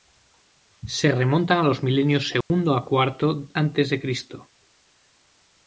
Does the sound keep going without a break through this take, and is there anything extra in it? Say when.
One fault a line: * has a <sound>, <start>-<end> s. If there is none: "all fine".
* has a dropout, 2.4-2.5 s